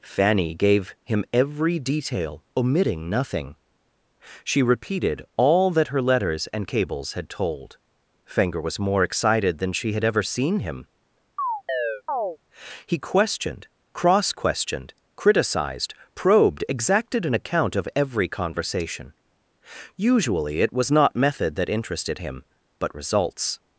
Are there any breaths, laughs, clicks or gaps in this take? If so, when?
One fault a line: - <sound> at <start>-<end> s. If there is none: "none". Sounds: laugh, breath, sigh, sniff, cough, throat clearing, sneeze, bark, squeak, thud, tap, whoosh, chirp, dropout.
- chirp at 11.4-12.4 s